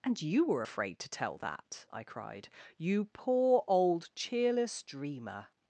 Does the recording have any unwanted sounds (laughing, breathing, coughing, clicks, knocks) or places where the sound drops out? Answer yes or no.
no